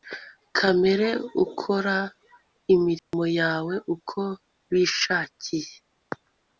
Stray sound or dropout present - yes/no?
yes